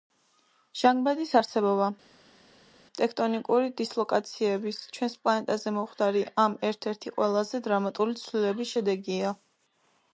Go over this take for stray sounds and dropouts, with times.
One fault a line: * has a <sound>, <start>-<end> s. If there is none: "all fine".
all fine